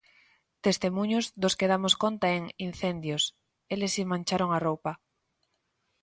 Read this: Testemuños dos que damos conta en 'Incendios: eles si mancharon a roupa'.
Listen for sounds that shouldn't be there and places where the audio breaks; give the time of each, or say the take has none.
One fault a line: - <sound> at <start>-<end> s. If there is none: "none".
none